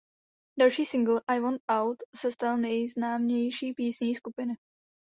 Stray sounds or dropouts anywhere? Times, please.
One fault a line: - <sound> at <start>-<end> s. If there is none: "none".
none